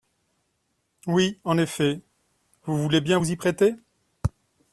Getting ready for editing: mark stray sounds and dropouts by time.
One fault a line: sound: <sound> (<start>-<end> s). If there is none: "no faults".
no faults